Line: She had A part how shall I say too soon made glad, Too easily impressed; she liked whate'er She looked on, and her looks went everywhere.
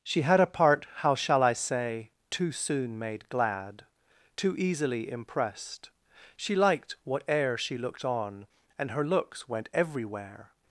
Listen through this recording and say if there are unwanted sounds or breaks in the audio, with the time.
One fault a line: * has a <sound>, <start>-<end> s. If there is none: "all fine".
all fine